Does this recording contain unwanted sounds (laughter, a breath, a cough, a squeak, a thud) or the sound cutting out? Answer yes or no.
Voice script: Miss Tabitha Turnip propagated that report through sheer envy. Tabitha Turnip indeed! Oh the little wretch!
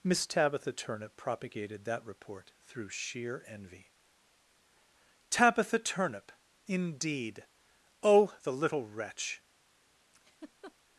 yes